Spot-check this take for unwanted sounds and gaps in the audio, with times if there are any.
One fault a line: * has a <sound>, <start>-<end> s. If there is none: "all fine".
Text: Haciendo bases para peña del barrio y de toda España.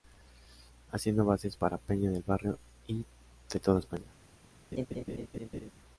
* has a laugh, 4.7-5.7 s